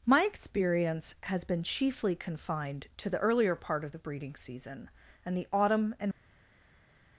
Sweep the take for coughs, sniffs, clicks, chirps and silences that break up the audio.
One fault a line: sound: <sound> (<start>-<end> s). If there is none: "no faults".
no faults